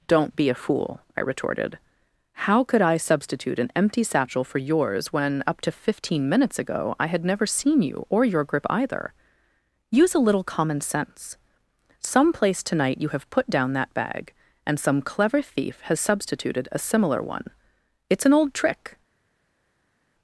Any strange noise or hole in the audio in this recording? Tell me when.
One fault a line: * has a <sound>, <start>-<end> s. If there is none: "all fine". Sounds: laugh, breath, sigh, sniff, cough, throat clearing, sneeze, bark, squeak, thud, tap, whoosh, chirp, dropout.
all fine